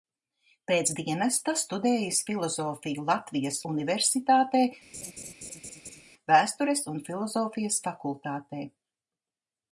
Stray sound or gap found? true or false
true